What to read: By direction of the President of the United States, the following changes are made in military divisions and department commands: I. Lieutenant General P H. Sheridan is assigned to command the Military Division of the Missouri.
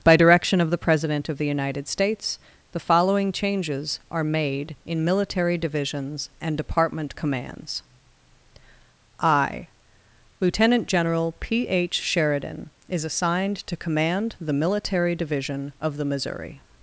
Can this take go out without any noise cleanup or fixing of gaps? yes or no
yes